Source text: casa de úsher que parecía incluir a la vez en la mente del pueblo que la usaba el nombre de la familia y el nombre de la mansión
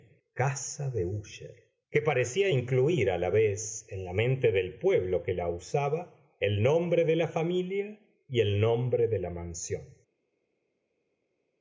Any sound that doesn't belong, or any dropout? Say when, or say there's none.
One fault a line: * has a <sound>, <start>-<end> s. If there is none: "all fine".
all fine